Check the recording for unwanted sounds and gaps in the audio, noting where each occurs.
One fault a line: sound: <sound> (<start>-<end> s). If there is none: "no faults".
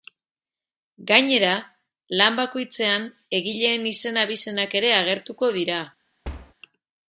sound: thud (6.2-6.5 s)